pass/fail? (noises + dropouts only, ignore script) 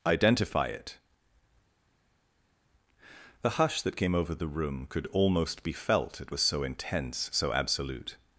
pass